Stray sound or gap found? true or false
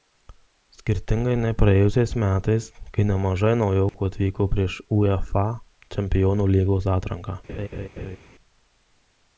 true